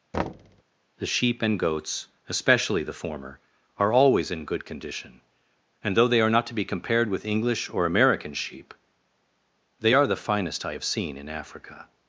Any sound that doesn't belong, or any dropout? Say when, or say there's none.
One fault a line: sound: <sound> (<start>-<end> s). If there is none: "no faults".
sound: thud (0.1-0.6 s)